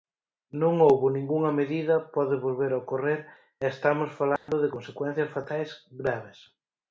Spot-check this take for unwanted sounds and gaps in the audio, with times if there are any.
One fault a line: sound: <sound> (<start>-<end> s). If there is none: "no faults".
sound: dropout (4.4-4.5 s)